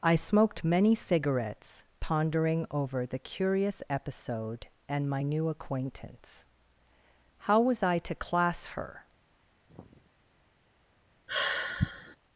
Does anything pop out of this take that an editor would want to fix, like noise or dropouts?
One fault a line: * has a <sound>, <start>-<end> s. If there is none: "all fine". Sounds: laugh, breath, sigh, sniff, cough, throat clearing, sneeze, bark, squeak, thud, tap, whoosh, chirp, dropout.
* has a sigh, 9.7-10.1 s
* has a sigh, 11.3-12.2 s